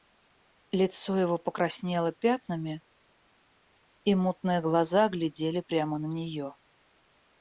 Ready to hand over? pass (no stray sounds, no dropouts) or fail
pass